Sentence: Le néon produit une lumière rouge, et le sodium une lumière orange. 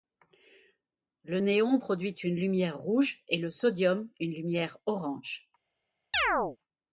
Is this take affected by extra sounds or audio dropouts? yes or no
yes